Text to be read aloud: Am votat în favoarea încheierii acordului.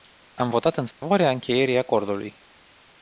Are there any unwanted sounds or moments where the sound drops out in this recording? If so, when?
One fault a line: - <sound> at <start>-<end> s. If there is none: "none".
- dropout at 0.9-1.0 s